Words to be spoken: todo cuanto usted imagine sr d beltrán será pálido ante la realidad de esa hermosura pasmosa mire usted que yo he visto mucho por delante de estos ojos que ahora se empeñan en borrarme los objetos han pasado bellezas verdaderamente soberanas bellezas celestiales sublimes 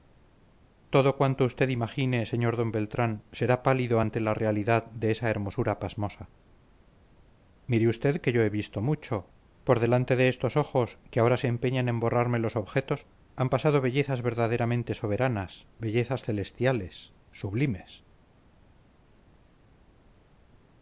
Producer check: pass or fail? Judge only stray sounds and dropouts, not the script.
pass